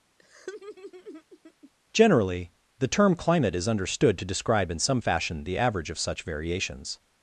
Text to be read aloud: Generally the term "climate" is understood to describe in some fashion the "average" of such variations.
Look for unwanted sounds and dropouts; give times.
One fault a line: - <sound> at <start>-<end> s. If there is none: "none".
- laugh at 0.2-1.7 s